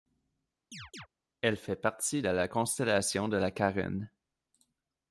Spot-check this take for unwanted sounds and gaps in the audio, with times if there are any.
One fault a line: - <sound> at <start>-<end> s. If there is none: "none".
- chirp at 0.7-1.1 s